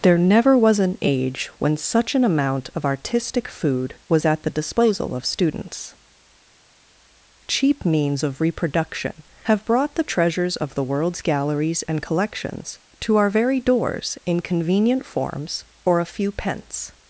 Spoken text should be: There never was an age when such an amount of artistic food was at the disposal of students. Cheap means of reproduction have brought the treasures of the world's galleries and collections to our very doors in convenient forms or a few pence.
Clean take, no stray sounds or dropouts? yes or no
yes